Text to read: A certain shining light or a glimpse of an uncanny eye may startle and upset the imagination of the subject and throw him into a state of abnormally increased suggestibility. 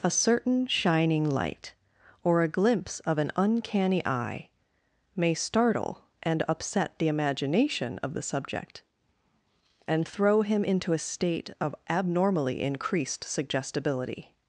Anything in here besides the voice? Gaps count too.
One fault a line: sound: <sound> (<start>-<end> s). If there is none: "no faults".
no faults